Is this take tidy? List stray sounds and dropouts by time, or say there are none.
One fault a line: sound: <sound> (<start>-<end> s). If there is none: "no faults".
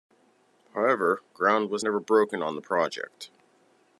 no faults